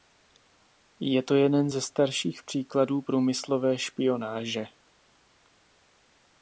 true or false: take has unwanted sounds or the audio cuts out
false